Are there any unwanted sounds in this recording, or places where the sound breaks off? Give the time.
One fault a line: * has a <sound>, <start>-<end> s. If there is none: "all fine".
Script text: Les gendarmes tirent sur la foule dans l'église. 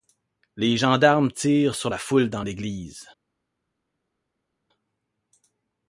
all fine